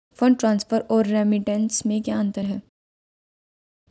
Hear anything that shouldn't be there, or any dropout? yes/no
no